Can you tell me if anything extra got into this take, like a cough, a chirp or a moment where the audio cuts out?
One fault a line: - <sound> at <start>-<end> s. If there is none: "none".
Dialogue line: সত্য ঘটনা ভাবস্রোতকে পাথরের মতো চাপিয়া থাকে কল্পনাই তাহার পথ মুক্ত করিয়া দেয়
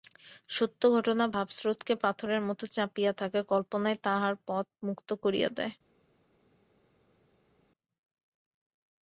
none